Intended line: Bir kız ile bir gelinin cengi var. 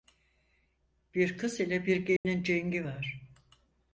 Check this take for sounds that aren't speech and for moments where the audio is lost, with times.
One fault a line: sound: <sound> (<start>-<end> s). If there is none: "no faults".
sound: dropout (2.2-2.3 s)